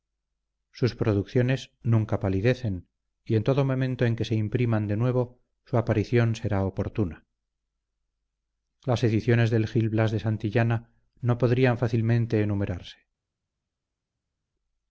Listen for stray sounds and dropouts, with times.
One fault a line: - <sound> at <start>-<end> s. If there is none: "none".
none